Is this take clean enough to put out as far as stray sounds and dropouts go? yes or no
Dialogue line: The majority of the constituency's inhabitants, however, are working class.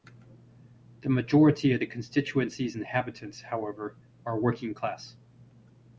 yes